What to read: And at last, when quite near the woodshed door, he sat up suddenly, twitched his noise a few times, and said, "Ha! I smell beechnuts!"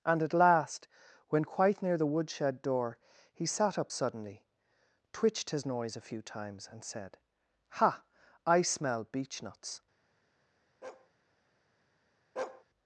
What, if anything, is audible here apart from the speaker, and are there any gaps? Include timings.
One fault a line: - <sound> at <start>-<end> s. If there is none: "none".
- bark at 10.8-11.1 s
- bark at 12.4-12.6 s